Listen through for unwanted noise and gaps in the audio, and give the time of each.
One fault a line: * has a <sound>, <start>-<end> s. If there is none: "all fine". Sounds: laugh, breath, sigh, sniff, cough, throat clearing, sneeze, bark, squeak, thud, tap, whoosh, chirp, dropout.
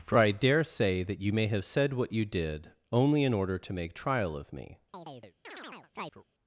* has a chirp, 4.9-6.2 s